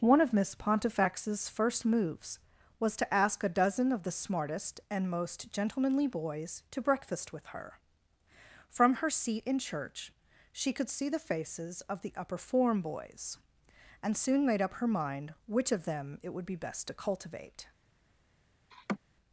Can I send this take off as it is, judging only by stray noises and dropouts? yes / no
no